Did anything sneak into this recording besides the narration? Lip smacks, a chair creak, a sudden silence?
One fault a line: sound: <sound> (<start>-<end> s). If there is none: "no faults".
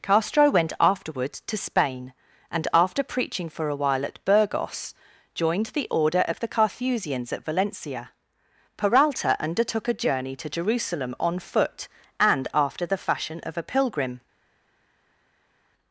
no faults